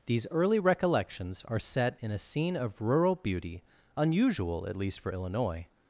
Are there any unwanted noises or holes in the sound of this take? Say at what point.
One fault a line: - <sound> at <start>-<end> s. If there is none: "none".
none